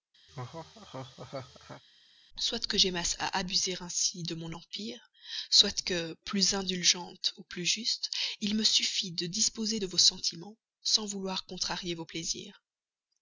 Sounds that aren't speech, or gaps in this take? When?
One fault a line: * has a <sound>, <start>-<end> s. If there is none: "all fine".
* has a laugh, 0.3-1.8 s